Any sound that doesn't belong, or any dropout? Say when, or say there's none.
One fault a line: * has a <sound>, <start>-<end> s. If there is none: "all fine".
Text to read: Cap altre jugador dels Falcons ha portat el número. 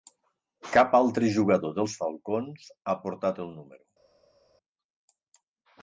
all fine